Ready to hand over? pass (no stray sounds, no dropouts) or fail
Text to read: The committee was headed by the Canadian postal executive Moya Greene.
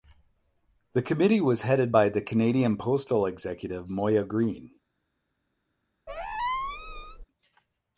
fail